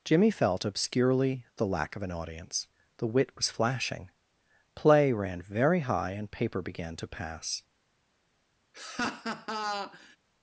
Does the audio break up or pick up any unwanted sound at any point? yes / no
yes